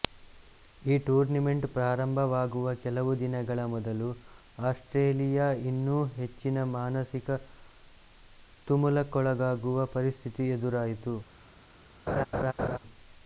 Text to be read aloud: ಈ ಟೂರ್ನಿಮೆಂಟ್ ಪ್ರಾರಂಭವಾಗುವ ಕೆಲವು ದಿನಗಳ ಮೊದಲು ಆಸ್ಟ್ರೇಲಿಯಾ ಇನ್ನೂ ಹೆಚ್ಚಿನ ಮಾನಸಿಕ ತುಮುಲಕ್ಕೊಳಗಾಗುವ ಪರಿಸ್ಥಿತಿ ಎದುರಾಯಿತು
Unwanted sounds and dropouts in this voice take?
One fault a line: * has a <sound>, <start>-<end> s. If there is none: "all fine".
* has a laugh, 12.1-12.8 s